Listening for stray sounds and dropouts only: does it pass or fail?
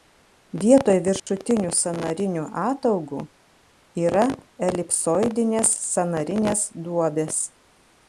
fail